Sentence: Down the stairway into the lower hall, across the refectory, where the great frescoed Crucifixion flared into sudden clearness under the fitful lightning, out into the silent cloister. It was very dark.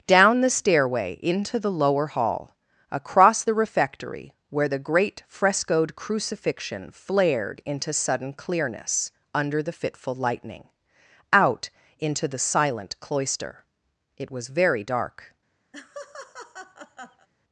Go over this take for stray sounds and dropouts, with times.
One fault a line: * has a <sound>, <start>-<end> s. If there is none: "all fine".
* has a laugh, 15.7-17.3 s